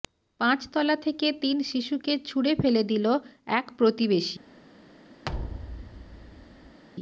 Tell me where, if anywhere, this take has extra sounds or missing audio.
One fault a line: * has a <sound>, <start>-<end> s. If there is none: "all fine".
* has a thud, 5.2-6.8 s